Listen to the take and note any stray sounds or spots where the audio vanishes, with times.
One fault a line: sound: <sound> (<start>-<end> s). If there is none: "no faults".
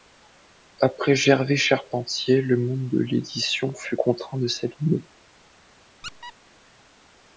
sound: squeak (6.0-6.3 s)